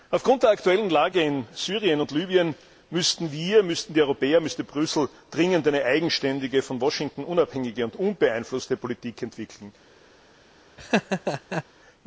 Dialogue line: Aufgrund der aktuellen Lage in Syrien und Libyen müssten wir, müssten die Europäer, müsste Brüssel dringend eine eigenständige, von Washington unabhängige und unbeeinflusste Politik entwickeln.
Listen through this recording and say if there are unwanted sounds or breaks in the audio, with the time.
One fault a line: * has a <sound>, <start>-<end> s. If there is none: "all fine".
* has a laugh, 10.8-11.6 s